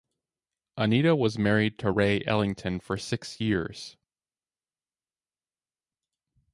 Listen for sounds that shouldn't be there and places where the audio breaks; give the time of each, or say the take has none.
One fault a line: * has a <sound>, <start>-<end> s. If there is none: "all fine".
all fine